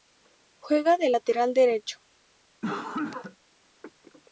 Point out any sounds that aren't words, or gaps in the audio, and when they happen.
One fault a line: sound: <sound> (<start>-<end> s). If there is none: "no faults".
sound: cough (2.6-3.4 s)